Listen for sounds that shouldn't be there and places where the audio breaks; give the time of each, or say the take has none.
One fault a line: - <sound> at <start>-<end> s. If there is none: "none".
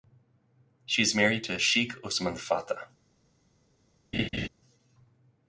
- laugh at 4.1-4.5 s